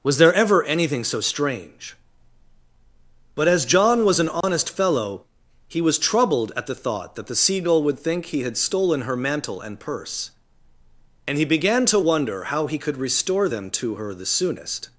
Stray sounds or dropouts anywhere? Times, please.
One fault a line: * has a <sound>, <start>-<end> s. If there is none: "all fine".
* has a dropout, 4.4-4.4 s